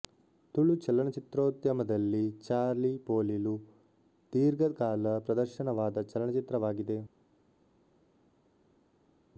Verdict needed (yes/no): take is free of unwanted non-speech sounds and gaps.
yes